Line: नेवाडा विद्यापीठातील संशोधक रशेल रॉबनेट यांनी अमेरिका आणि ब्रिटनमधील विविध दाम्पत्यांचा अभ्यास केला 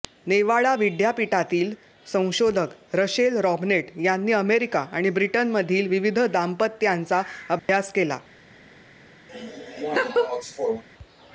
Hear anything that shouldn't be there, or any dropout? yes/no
yes